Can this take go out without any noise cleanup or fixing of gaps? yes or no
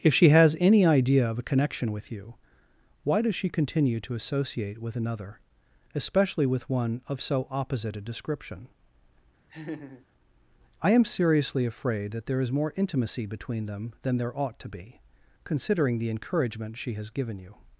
no